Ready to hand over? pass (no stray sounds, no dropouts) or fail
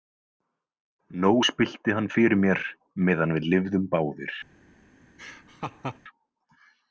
fail